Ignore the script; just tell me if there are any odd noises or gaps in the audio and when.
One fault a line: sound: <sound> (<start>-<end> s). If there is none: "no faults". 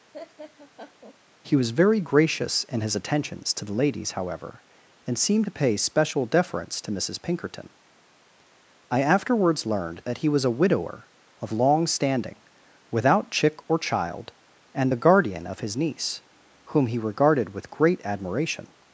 sound: laugh (0.1-1.2 s)